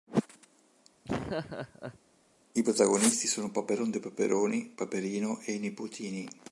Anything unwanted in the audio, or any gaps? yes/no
yes